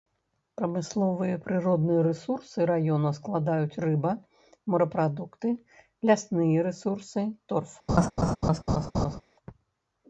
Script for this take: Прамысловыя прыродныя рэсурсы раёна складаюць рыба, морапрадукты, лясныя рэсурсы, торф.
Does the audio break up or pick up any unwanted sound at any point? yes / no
yes